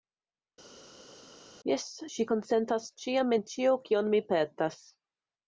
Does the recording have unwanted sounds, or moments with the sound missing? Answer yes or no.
no